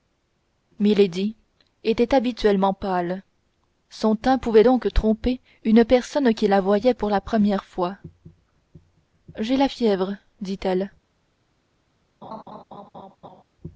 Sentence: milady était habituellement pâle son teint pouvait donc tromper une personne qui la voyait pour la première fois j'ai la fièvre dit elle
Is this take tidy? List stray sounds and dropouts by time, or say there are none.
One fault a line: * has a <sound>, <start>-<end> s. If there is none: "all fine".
* has a laugh, 12.2-13.4 s